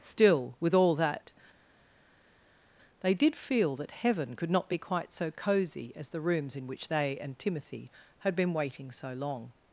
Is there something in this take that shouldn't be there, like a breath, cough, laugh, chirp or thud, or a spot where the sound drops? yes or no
no